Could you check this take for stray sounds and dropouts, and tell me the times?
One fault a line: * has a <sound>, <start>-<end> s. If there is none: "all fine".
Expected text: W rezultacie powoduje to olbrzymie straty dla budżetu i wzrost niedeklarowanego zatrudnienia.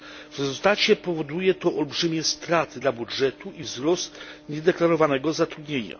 all fine